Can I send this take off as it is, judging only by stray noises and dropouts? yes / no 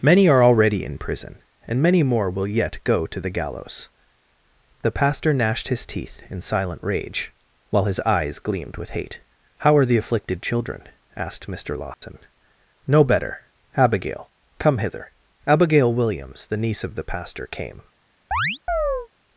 no